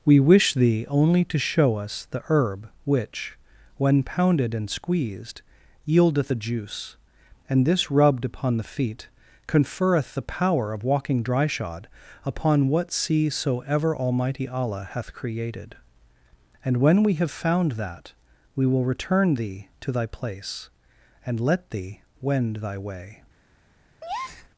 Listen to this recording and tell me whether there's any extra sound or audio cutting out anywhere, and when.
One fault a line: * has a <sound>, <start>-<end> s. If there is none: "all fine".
* has a breath, 24.0-24.5 s